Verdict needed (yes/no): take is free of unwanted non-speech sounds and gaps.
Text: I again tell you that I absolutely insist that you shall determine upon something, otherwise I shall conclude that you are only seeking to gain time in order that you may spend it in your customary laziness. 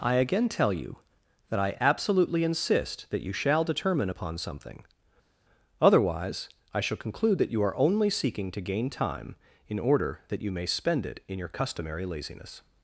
yes